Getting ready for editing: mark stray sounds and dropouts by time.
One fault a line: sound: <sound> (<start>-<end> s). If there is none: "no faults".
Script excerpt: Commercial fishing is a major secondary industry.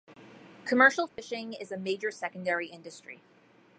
sound: dropout (1.1-1.2 s)